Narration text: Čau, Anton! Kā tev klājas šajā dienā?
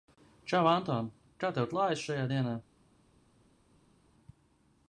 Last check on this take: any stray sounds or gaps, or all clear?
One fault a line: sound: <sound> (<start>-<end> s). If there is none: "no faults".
no faults